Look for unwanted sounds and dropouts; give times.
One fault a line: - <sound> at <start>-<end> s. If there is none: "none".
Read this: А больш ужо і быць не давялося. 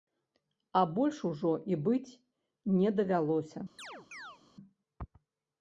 - chirp at 3.8-4.4 s